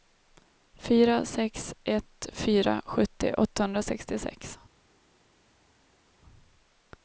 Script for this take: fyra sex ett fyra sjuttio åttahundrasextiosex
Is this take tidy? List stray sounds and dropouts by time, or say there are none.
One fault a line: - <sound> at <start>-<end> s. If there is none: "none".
none